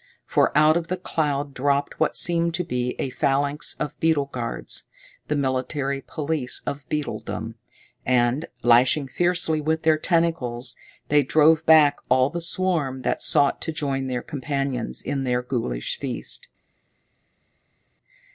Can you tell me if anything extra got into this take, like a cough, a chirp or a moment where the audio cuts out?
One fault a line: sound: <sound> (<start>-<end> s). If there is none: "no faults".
no faults